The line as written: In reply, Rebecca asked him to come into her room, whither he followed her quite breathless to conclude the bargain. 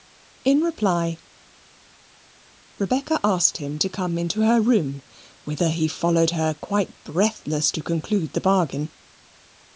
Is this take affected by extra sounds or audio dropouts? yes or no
no